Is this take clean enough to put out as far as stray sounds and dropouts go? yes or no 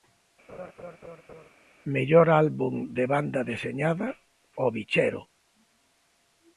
no